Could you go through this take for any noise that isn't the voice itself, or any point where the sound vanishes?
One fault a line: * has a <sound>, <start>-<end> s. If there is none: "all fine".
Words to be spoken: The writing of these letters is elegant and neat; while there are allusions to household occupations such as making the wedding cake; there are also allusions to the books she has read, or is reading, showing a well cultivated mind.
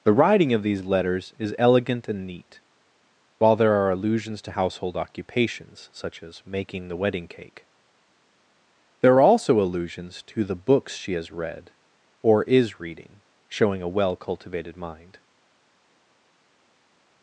all fine